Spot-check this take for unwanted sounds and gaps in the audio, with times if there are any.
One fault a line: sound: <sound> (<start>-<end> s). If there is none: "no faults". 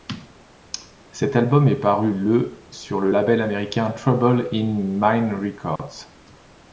sound: dropout (5.8-5.8 s)